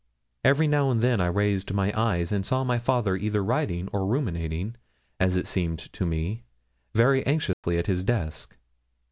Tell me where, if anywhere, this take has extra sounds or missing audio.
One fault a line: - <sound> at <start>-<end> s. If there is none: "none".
- dropout at 7.5-7.6 s